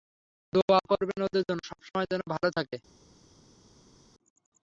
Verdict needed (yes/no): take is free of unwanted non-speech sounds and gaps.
yes